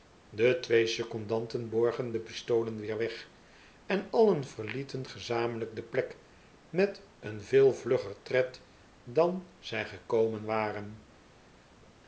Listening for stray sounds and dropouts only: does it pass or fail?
pass